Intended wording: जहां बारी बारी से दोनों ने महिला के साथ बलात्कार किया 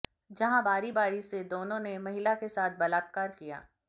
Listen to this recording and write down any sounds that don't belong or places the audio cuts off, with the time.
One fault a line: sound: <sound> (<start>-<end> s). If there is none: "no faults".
no faults